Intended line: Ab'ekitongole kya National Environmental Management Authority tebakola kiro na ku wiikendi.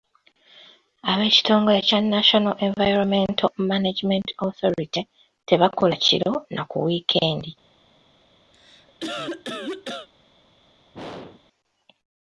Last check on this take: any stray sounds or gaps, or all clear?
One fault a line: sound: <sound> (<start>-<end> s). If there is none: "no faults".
sound: cough (8.5-10.1 s)
sound: throat clearing (10.9-11.4 s)